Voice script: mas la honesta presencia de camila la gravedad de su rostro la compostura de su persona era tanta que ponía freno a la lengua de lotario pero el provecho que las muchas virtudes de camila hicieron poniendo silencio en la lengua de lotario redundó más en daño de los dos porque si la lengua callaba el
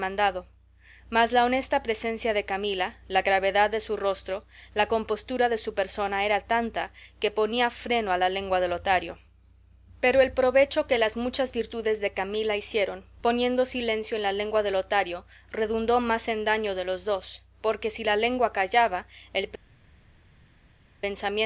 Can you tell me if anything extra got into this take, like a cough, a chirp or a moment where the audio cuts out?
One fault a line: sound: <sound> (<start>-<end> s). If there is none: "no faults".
no faults